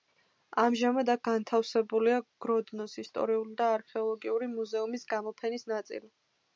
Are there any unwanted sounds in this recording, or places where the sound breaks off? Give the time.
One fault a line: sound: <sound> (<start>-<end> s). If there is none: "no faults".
no faults